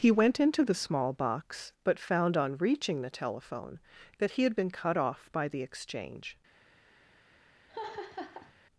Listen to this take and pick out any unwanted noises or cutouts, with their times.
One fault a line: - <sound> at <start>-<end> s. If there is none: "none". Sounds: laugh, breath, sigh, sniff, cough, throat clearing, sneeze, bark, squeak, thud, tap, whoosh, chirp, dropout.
- laugh at 7.7-8.5 s